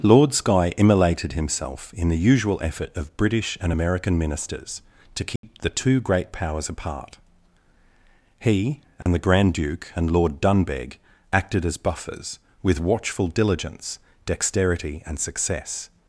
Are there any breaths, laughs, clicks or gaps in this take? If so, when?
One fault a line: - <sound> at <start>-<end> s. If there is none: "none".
- dropout at 5.4-5.4 s
- dropout at 9.0-9.1 s